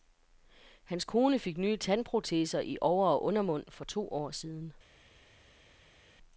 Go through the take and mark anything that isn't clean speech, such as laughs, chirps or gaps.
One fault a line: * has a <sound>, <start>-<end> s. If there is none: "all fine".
all fine